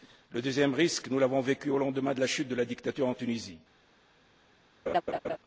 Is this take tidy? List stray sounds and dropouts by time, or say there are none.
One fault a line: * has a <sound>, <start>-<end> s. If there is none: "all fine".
* has a laugh, 4.9-5.4 s